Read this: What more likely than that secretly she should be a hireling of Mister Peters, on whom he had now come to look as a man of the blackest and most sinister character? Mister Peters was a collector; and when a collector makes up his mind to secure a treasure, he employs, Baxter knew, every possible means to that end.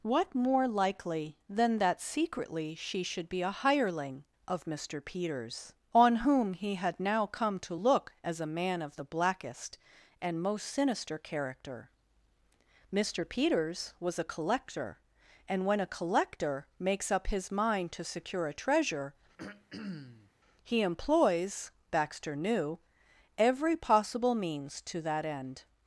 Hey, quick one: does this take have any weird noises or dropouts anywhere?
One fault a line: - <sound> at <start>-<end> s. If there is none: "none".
- throat clearing at 19.4-20.3 s